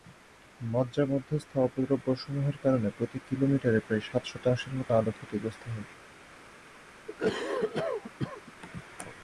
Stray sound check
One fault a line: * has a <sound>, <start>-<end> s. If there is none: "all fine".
* has a cough, 7.1-8.5 s